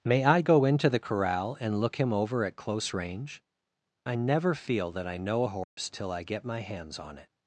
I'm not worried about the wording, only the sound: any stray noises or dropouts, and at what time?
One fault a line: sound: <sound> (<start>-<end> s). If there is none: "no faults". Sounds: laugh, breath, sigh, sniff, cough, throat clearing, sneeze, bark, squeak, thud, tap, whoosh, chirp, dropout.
sound: dropout (5.6-5.8 s)